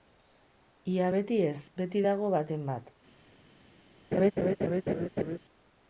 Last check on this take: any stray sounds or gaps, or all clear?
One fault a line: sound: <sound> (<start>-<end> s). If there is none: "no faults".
sound: laugh (4.1-5.4 s)